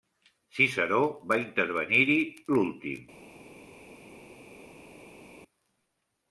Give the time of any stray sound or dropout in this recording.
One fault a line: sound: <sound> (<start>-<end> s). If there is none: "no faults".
no faults